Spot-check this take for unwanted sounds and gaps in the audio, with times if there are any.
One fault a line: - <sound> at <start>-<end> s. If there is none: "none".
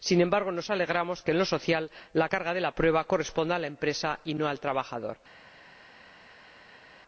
none